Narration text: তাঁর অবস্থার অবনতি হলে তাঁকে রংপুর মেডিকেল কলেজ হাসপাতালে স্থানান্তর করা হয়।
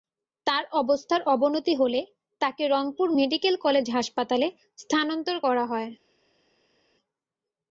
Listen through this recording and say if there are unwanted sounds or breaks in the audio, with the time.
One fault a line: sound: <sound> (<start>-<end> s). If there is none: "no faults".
no faults